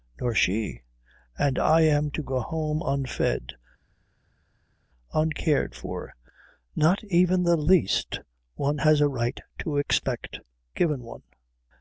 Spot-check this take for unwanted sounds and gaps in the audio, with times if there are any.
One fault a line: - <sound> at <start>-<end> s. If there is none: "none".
none